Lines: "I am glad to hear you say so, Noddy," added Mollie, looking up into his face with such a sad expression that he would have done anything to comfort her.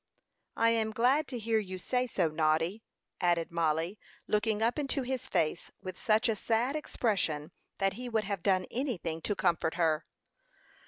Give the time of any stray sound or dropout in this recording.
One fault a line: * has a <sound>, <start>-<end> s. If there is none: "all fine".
all fine